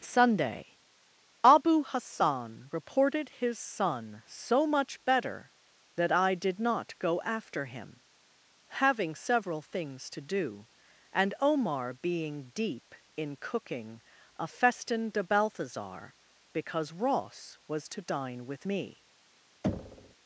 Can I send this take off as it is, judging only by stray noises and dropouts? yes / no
no